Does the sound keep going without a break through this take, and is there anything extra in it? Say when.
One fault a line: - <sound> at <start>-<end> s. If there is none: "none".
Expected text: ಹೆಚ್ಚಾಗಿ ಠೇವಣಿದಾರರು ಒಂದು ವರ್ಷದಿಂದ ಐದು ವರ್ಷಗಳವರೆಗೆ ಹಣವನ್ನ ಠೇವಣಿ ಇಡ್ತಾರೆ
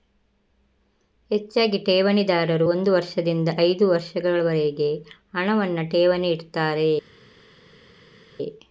none